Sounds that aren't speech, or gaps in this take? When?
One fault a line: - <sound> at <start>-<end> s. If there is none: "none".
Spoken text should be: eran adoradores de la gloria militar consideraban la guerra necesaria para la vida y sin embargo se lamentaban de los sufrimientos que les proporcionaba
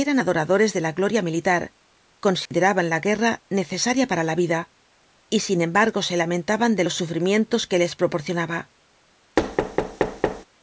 - dropout at 2.5-2.5 s
- thud at 9.4-10.5 s